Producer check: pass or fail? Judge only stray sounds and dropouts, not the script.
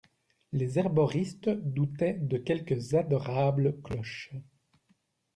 pass